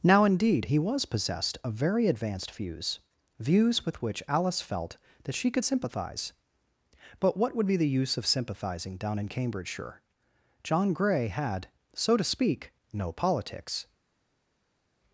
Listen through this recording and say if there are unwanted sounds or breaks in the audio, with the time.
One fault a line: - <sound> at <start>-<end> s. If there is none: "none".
none